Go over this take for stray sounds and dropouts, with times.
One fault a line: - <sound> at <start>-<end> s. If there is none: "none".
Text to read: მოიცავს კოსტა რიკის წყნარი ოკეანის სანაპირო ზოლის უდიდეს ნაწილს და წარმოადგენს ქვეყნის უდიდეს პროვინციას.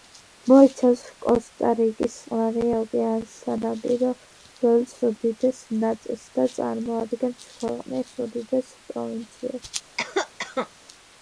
- cough at 10.0-10.7 s